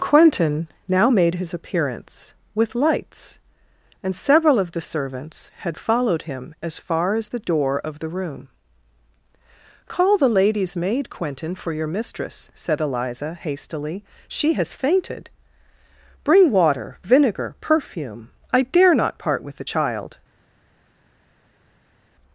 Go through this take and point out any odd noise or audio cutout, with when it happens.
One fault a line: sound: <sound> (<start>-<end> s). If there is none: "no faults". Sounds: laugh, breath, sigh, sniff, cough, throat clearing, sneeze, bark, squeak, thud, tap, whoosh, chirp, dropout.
no faults